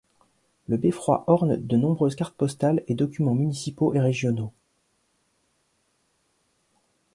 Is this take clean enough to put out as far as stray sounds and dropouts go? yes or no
yes